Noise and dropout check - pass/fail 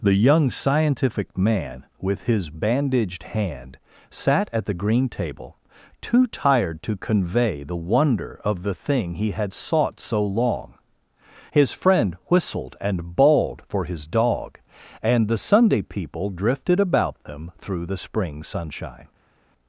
pass